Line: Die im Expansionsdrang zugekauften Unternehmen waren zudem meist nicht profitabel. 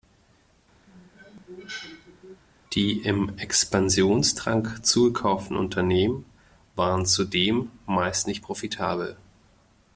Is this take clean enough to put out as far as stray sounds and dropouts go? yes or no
no